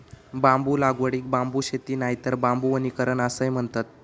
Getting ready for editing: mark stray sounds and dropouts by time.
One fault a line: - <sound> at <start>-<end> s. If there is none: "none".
none